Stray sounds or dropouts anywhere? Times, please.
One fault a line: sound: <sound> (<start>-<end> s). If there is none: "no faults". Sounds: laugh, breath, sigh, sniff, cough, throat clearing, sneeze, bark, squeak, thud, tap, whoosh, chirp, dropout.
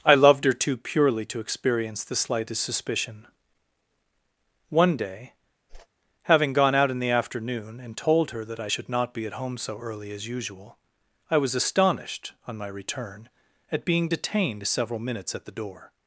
sound: whoosh (5.7-5.9 s)